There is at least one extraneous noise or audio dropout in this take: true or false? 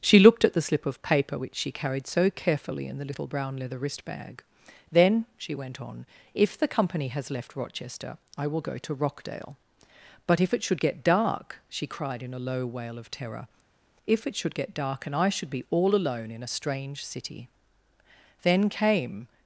false